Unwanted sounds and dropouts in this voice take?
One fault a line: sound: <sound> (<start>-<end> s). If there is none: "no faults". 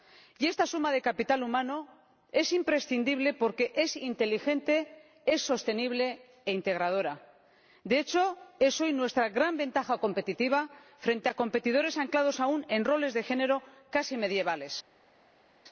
no faults